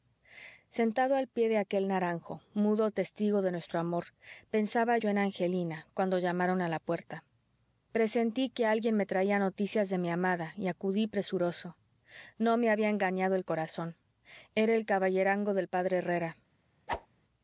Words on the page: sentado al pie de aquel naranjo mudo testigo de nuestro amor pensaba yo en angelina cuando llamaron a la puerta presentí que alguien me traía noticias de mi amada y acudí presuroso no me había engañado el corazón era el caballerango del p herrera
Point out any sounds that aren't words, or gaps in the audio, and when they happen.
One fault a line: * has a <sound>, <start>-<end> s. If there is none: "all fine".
* has a whoosh, 16.9-17.1 s